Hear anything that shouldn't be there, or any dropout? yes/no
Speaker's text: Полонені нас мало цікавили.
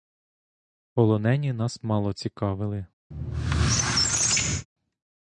yes